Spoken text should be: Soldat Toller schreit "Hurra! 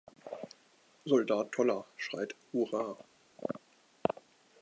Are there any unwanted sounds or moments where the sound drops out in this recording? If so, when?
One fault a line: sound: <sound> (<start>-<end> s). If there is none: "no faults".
no faults